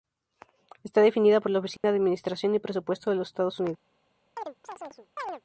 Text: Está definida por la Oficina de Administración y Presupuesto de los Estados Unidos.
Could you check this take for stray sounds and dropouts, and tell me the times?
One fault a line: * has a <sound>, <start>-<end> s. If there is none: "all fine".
* has a dropout, 1.8-1.8 s
* has a chirp, 4.4-5.4 s